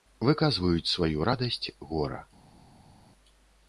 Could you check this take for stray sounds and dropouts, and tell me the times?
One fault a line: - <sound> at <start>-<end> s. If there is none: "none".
none